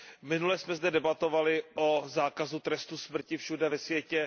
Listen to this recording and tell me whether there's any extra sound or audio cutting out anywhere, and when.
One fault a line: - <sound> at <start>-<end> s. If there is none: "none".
none